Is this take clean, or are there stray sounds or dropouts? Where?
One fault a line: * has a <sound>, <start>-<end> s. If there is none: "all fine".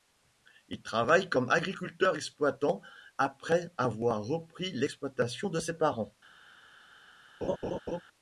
* has a laugh, 7.4-8.0 s